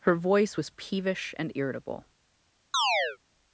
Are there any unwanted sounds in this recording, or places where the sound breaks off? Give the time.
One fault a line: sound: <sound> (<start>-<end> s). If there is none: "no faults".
sound: chirp (2.7-3.2 s)